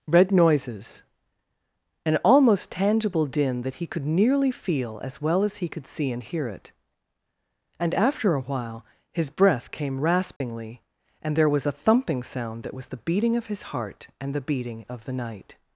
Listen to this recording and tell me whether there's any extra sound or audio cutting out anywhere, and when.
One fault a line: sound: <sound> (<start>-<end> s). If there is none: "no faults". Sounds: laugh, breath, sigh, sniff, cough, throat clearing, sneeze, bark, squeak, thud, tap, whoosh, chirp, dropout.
sound: dropout (10.4-10.4 s)